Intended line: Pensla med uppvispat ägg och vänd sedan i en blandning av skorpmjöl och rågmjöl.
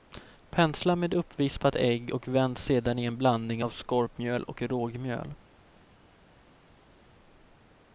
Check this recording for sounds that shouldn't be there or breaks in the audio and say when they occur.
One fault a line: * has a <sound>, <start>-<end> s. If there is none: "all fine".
all fine